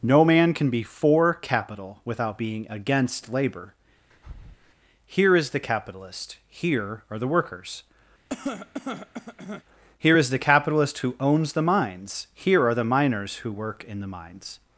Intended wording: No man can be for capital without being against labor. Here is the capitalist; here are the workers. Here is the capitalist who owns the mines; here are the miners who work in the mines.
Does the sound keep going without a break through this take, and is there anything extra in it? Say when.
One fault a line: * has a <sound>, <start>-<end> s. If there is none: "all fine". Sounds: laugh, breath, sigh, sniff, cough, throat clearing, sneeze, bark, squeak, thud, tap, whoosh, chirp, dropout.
* has a breath, 4.1-4.7 s
* has a cough, 8.3-9.6 s